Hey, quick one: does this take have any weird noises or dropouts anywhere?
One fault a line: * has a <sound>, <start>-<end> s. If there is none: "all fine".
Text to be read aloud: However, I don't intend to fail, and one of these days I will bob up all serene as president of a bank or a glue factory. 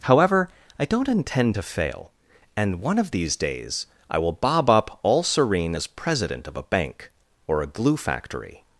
all fine